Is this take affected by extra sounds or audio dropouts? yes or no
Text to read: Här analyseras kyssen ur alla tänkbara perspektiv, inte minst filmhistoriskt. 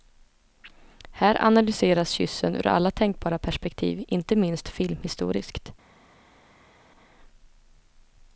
no